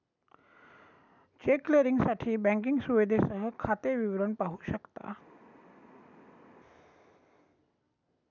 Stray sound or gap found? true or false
false